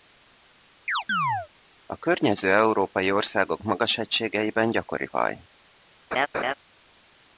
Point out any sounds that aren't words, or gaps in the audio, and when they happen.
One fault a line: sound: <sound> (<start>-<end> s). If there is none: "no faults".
sound: chirp (0.9-1.5 s)
sound: laugh (6.1-6.5 s)